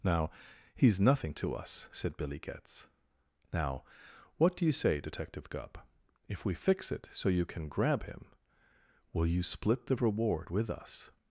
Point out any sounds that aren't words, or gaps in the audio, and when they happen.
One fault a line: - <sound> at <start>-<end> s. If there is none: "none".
none